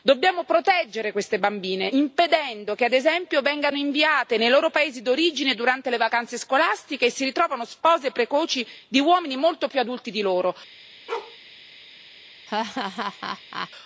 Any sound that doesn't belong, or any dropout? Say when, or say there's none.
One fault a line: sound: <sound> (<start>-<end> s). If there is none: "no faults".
sound: bark (11.1-11.4 s)
sound: laugh (12.5-13.7 s)